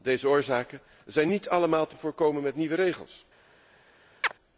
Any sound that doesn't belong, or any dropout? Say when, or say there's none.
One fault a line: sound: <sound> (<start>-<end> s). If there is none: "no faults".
sound: chirp (4.2-4.3 s)